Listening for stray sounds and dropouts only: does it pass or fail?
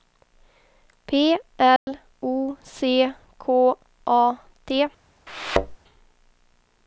fail